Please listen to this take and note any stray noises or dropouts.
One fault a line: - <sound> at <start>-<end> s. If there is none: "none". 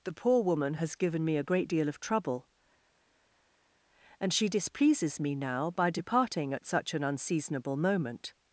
none